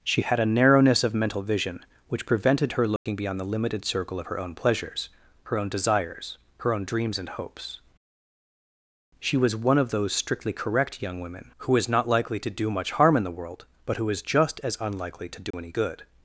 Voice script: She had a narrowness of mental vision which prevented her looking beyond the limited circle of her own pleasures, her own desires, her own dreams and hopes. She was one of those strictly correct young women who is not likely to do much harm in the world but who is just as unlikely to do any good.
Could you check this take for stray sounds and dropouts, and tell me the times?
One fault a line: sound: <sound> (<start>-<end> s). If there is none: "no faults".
sound: dropout (3.0-3.1 s)
sound: dropout (15.5-15.5 s)